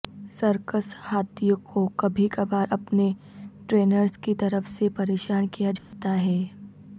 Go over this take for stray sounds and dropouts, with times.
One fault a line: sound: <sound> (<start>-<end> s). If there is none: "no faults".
sound: dropout (5.8-5.9 s)